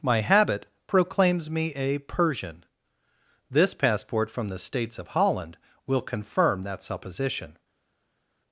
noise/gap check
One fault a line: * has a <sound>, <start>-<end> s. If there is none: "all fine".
all fine